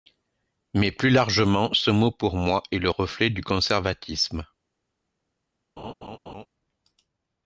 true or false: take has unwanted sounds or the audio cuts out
true